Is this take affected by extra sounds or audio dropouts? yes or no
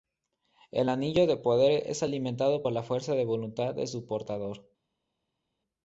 no